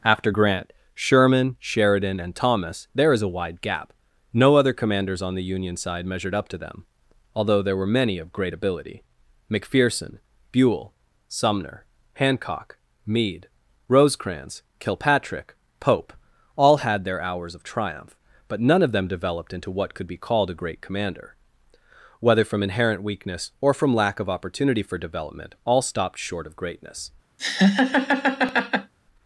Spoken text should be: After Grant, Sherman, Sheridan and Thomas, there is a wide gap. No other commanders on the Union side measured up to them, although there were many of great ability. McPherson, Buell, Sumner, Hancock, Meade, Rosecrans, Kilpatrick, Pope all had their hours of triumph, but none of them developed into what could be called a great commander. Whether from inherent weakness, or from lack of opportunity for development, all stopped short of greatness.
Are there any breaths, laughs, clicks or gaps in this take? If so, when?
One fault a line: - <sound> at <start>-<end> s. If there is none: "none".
- laugh at 27.4-28.9 s